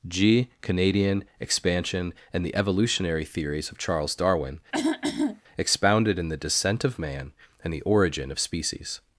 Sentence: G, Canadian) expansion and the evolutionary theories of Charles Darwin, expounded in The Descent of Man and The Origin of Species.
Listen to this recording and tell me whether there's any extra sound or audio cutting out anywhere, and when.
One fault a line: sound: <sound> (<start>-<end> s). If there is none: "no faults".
sound: throat clearing (4.7-5.4 s)